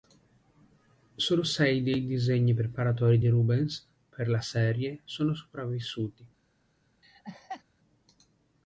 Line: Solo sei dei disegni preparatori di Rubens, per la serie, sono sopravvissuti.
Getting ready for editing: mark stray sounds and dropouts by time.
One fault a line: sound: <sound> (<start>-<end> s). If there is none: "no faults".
sound: laugh (7.0-7.6 s)